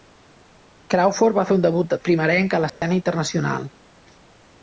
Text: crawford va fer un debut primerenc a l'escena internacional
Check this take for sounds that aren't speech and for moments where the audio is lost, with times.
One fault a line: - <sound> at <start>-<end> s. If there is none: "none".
- dropout at 2.7-2.8 s